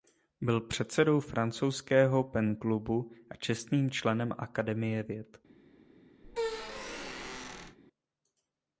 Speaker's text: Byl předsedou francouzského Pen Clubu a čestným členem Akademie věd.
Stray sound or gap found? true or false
true